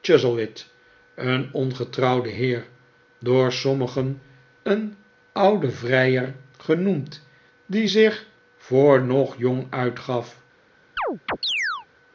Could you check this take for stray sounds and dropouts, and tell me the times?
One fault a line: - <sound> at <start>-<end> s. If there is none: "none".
- chirp at 11.0-11.9 s